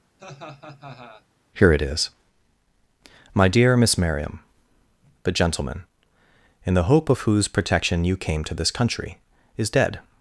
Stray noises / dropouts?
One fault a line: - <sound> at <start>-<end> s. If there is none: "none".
- laugh at 0.2-1.3 s